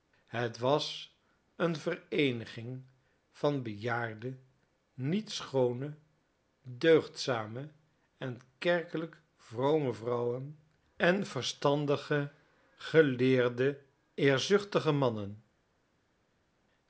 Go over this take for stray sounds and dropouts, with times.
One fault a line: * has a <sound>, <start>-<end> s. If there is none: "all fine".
all fine